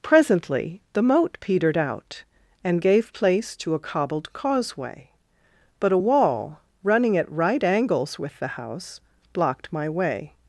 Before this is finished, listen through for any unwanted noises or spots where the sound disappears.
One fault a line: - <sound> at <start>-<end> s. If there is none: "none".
none